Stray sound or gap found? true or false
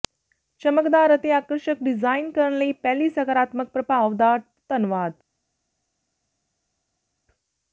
false